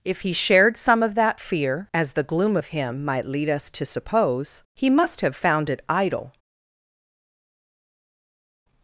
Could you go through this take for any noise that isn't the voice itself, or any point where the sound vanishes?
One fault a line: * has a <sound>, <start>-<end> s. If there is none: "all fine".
all fine